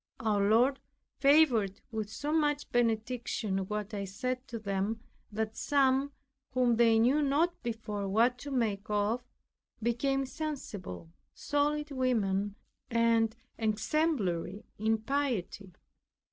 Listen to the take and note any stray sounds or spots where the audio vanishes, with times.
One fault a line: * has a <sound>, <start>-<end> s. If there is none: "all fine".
all fine